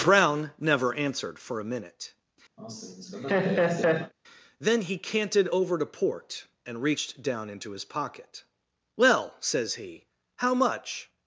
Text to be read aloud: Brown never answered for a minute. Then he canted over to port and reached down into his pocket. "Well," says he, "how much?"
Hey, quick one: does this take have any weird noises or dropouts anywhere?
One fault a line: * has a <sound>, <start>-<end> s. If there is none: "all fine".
* has a laugh, 2.6-4.1 s